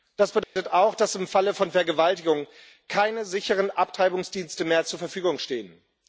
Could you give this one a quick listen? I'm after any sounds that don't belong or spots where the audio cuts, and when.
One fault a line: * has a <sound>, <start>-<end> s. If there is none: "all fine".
* has a dropout, 0.4-0.6 s